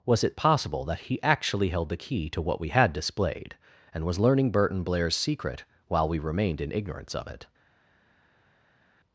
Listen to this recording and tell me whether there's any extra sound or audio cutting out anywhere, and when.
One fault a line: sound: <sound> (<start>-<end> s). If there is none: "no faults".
no faults